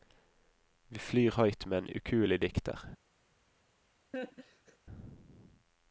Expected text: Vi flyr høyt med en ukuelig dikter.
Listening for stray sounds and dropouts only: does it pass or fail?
fail